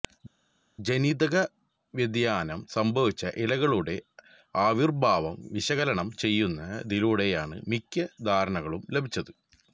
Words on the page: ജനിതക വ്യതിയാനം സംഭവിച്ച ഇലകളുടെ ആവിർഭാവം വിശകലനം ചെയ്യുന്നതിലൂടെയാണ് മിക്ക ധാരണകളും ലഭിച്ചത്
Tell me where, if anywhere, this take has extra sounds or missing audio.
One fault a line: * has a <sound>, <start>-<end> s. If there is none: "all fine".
all fine